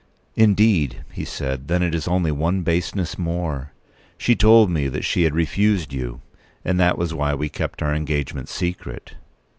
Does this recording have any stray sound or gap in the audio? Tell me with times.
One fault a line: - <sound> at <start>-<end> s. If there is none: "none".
none